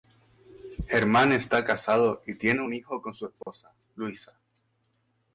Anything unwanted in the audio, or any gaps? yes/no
yes